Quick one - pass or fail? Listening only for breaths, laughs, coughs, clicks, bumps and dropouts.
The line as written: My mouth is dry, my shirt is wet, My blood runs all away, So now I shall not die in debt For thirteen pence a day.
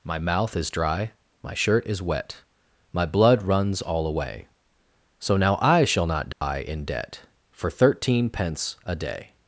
fail